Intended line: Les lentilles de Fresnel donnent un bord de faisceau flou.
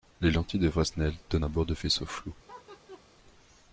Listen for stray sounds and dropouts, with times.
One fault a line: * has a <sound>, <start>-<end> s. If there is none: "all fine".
* has a laugh, 2.5-3.0 s